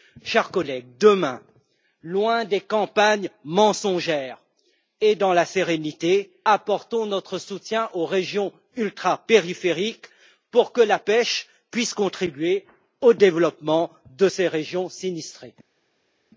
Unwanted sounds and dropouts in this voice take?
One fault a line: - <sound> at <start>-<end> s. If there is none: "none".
none